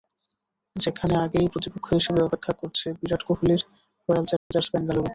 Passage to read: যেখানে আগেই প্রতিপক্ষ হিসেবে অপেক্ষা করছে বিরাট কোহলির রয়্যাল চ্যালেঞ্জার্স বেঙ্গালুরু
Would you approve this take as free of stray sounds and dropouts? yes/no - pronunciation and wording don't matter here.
no